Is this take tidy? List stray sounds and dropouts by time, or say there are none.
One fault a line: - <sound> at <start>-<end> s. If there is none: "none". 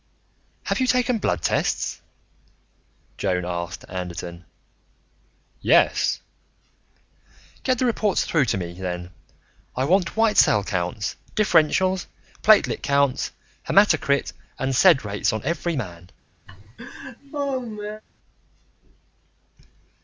- laugh at 16.5-18.0 s